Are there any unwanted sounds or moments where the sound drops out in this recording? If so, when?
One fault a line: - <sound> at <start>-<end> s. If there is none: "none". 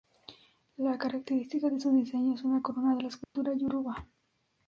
- dropout at 3.2-3.4 s